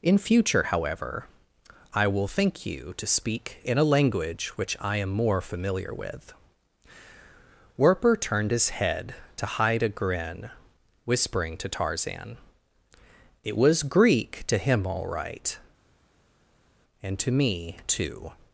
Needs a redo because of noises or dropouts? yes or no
no